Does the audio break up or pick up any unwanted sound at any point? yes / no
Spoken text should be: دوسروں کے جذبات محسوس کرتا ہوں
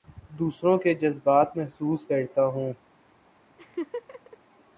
yes